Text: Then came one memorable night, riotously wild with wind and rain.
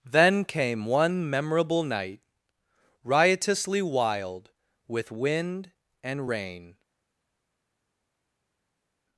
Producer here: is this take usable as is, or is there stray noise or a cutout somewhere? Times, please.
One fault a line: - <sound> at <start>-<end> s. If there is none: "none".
none